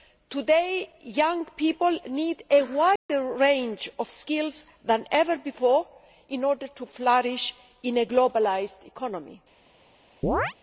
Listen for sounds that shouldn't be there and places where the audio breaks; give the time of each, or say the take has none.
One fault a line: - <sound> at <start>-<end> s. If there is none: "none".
- dropout at 3.0-3.1 s
- chirp at 10.2-10.5 s